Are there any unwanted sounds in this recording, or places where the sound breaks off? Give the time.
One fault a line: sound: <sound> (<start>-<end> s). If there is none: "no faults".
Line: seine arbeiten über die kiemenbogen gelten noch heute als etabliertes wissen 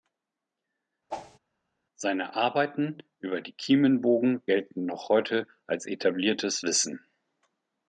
sound: whoosh (1.1-1.4 s)